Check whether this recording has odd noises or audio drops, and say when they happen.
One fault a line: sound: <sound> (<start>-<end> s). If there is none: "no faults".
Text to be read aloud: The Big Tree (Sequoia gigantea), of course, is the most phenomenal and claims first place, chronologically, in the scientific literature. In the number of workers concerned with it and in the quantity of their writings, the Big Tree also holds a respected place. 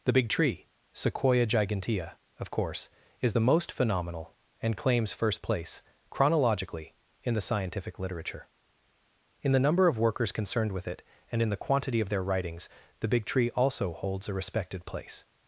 no faults